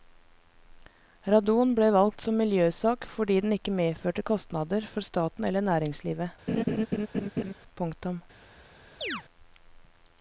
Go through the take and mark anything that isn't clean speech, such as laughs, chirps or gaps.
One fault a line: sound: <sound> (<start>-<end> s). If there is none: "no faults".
sound: laugh (6.5-7.5 s)
sound: chirp (9.0-9.2 s)